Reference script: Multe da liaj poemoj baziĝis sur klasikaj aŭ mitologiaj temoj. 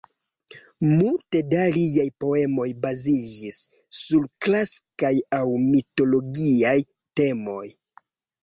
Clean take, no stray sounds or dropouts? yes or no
yes